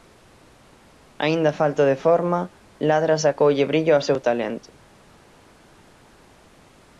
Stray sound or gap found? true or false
false